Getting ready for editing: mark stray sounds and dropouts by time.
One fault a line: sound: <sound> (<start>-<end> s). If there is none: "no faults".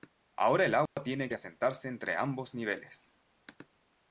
sound: dropout (0.9-1.0 s)